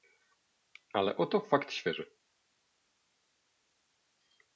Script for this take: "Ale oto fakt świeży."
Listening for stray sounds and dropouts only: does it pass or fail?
pass